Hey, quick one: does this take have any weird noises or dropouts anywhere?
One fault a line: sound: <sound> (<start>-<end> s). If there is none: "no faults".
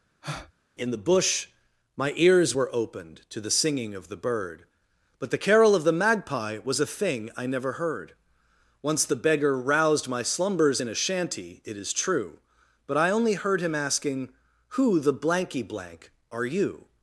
sound: breath (0.2-0.5 s)